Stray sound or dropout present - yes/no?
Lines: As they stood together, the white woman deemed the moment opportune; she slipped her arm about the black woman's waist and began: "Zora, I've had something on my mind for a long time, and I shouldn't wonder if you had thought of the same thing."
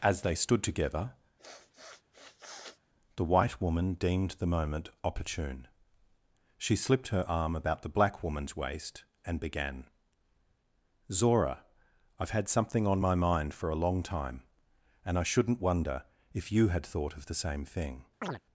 yes